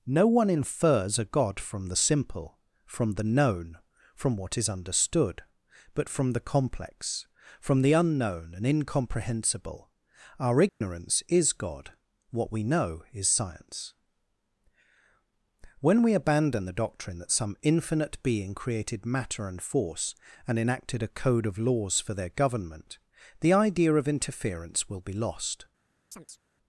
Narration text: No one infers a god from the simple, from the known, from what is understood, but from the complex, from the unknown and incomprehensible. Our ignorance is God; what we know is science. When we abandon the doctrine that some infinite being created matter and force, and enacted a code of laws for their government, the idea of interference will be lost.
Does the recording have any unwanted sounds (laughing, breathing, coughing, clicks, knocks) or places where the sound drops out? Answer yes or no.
yes